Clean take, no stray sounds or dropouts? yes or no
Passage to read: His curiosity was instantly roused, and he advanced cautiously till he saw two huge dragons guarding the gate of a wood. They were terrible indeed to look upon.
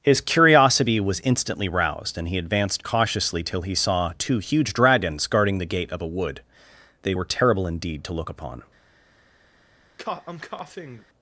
no